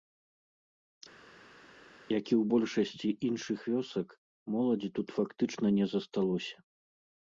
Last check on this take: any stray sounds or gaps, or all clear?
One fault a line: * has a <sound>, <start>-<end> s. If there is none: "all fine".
all fine